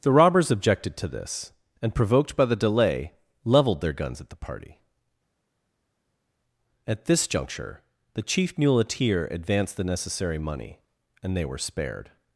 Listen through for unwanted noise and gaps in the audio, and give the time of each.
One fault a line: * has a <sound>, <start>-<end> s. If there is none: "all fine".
all fine